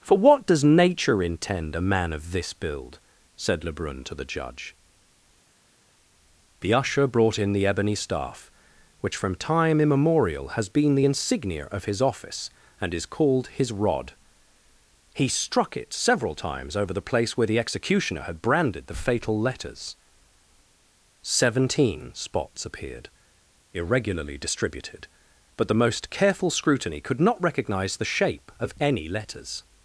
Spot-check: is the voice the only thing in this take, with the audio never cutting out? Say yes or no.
yes